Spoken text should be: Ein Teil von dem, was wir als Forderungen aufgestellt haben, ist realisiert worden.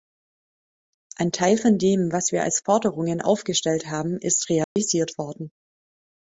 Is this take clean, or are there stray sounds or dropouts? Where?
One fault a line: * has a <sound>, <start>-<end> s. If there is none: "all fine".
* has a dropout, 4.6-4.8 s